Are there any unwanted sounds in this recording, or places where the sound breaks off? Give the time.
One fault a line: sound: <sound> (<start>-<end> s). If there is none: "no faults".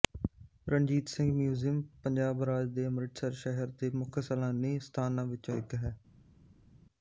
no faults